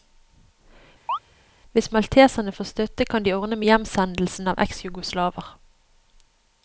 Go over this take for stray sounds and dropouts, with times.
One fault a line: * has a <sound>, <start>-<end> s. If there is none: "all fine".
* has a chirp, 1.1-1.2 s